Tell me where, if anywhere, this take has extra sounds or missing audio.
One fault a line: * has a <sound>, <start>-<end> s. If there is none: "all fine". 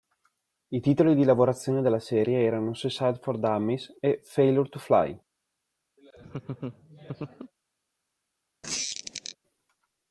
* has a laugh, 6.0-7.5 s
* has a squeak, 8.6-9.4 s